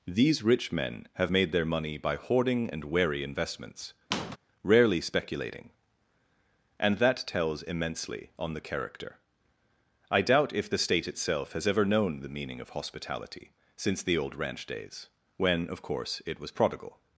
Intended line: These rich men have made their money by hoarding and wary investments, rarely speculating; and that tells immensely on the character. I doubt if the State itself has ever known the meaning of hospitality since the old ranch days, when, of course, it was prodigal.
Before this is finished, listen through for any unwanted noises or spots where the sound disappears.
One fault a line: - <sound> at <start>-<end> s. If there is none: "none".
- squeak at 4.1-4.4 s